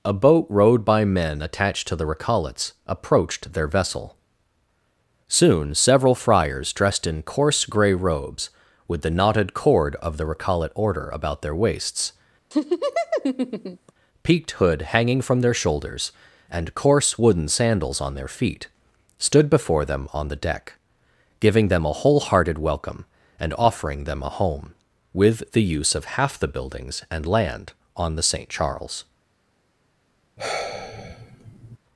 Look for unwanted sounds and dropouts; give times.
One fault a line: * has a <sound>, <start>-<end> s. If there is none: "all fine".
* has a laugh, 12.5-13.9 s
* has a sigh, 30.4-31.8 s